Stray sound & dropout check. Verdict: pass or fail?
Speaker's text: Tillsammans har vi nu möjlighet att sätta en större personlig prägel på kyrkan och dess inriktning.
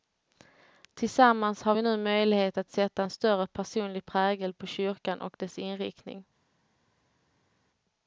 pass